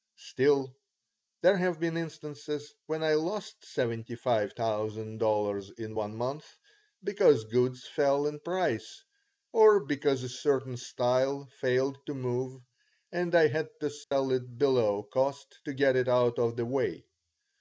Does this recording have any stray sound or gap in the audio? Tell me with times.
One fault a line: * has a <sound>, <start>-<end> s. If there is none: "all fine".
* has a dropout, 14.0-14.1 s